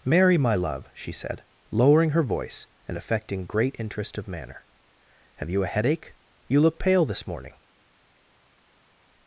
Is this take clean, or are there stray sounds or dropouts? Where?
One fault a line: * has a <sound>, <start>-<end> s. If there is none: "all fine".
all fine